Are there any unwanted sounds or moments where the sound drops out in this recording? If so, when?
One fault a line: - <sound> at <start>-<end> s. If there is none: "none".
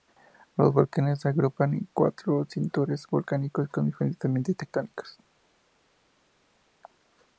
none